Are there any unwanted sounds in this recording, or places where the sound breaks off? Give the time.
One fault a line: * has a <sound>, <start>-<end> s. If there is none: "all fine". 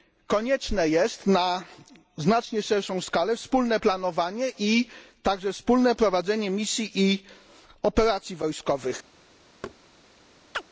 * has a thud, 9.6-9.8 s
* has a chirp, 10.5-10.6 s